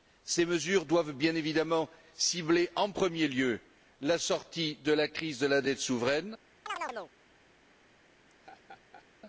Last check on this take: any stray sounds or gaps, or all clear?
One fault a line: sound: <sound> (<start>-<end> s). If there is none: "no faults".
sound: chirp (6.7-7.1 s)
sound: laugh (8.3-9.1 s)